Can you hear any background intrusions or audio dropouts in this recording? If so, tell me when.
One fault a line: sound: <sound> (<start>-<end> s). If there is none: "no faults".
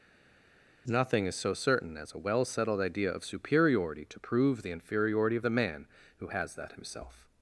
no faults